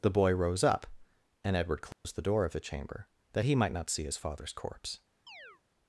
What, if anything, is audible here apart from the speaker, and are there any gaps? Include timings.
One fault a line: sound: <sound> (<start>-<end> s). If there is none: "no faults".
sound: dropout (1.9-2.0 s)
sound: chirp (5.3-5.6 s)